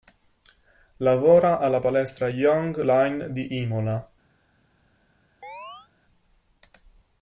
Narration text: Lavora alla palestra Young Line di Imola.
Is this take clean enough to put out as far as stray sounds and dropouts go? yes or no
no